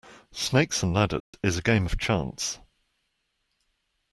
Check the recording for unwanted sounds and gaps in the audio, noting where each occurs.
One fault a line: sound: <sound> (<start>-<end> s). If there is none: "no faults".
sound: dropout (1.2-1.3 s)